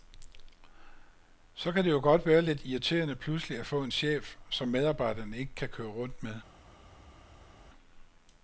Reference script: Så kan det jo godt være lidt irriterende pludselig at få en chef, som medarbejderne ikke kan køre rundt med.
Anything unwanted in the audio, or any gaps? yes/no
no